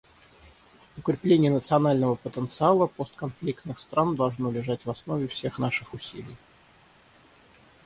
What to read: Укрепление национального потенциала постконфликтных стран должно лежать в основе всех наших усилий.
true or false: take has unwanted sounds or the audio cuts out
false